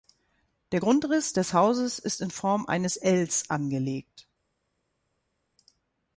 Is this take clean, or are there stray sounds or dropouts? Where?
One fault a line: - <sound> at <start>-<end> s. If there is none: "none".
none